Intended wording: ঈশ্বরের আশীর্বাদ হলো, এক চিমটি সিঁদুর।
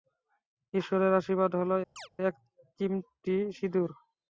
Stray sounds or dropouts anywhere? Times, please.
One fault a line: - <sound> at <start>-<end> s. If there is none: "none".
- chirp at 2.0-2.1 s